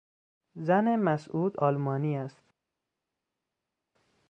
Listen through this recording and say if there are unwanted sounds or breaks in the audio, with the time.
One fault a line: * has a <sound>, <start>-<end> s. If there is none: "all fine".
all fine